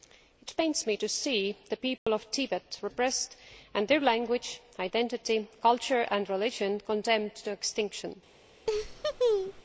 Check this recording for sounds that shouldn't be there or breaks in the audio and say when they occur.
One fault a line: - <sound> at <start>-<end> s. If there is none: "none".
- dropout at 2.0-2.1 s
- laugh at 8.7-9.6 s